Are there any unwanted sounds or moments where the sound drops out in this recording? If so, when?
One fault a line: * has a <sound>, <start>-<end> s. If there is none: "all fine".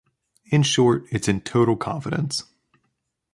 all fine